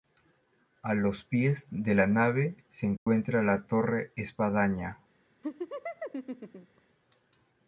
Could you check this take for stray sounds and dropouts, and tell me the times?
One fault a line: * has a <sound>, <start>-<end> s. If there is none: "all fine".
* has a dropout, 3.0-3.1 s
* has a laugh, 5.4-6.8 s